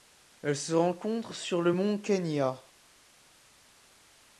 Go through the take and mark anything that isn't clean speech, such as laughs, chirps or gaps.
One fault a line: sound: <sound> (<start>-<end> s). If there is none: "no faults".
no faults